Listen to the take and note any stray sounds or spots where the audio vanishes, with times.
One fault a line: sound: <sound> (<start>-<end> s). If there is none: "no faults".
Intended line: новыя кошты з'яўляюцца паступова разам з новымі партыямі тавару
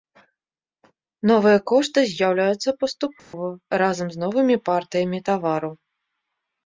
sound: dropout (3.2-3.3 s)